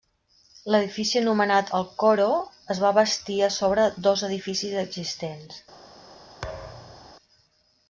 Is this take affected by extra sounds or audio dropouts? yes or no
yes